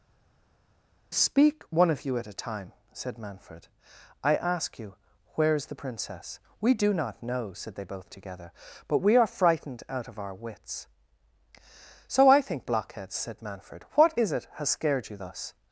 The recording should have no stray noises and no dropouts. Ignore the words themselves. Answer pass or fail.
pass